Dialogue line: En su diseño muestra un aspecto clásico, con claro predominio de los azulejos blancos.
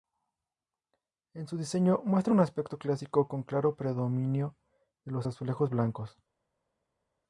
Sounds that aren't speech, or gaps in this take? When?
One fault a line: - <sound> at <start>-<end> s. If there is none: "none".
none